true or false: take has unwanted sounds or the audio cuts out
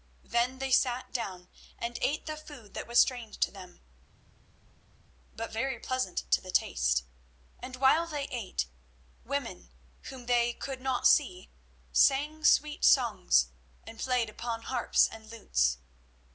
false